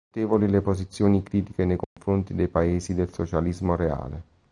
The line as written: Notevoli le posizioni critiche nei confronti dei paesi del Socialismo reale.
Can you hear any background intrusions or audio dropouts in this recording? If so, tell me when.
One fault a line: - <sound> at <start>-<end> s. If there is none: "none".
- dropout at 1.8-2.0 s